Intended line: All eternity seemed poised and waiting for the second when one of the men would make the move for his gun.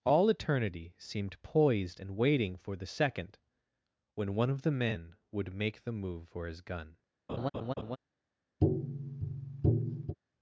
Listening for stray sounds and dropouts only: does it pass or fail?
fail